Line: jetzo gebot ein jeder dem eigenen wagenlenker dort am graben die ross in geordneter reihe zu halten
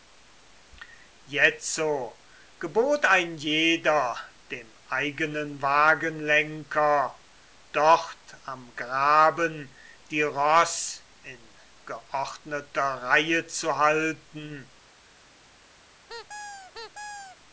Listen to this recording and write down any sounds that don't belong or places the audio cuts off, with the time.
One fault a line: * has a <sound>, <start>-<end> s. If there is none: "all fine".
* has a squeak, 16.1-17.4 s